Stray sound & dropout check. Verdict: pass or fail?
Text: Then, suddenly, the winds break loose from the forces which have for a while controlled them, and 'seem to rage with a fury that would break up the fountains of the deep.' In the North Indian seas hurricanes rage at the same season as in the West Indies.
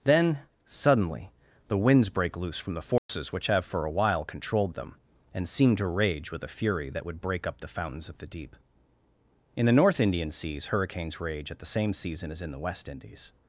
fail